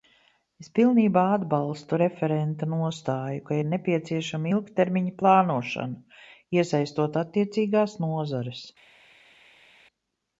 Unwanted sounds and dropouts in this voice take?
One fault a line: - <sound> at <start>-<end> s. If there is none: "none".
none